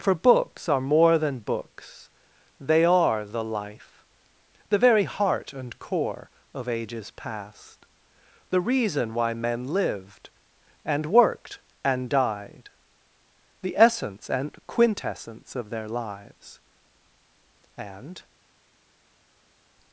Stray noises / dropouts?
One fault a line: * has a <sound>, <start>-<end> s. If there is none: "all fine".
all fine